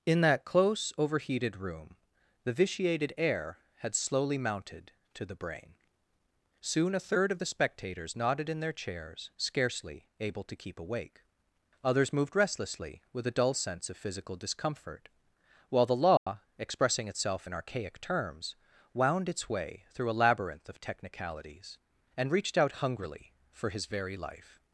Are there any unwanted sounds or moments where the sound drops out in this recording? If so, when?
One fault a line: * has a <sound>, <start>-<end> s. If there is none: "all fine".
* has a dropout, 16.2-16.3 s